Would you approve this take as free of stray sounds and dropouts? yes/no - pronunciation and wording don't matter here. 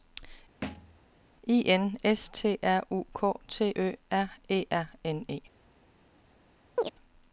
no